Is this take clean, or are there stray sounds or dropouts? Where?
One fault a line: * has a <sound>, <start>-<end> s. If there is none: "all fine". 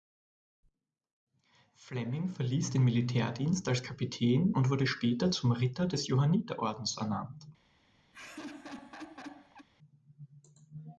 * has a laugh, 8.1-9.7 s